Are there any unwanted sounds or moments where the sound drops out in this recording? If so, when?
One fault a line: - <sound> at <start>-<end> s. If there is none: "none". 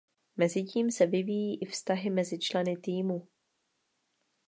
none